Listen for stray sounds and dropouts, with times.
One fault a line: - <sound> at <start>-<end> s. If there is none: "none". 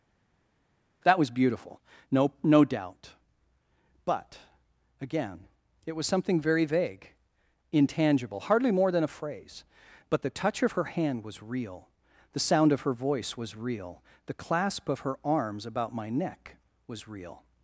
none